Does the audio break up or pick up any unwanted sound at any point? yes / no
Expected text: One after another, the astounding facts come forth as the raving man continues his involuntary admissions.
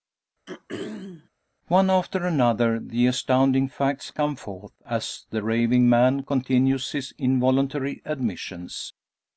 yes